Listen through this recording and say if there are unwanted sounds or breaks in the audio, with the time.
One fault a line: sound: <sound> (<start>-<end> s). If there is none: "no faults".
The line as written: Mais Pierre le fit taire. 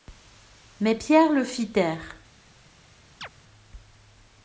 sound: chirp (3.2-3.3 s)